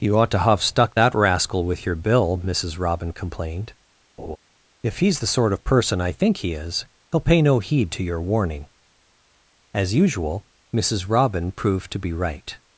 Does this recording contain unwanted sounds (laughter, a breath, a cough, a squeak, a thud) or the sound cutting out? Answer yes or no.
yes